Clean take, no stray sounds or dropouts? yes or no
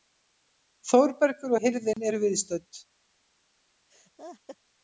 no